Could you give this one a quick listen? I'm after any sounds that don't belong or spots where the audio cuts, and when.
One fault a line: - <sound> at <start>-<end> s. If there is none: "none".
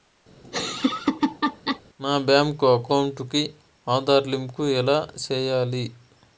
- laugh at 0.4-1.8 s